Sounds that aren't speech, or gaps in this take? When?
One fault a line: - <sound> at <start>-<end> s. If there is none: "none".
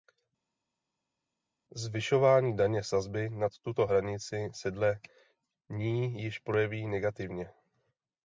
none